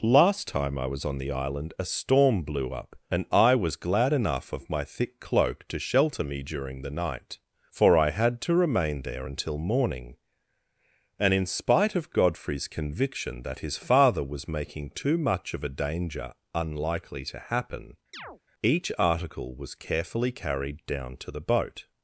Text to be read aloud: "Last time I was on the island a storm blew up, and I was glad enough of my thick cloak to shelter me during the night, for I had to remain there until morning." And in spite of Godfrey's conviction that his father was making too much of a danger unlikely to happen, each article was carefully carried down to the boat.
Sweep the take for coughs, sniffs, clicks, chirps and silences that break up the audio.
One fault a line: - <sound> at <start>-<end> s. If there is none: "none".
- chirp at 18.1-18.4 s